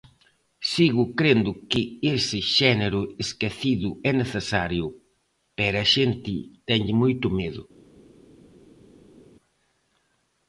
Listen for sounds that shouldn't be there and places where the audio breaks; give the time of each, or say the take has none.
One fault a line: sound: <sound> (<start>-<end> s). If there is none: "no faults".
no faults